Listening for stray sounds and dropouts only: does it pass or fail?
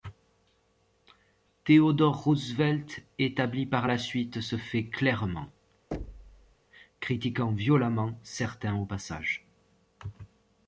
fail